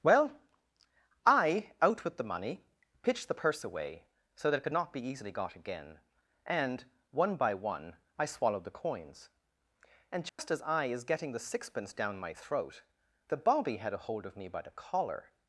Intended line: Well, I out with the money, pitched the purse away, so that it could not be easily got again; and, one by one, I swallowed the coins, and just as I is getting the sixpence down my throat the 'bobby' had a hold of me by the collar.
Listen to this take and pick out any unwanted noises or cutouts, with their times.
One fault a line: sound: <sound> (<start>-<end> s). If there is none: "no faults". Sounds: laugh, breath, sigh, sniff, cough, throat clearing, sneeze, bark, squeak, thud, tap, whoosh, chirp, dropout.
sound: dropout (10.3-10.4 s)